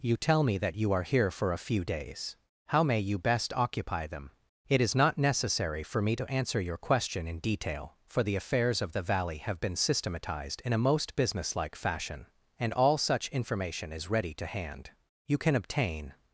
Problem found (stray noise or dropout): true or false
false